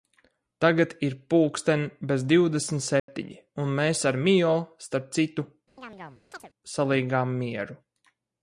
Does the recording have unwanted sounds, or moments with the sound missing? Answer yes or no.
yes